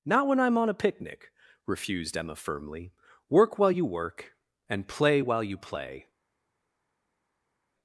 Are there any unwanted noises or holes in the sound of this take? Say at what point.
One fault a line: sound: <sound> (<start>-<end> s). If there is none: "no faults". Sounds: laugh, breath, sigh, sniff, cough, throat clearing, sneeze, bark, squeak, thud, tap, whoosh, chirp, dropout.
no faults